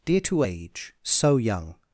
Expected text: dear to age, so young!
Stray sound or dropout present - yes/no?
no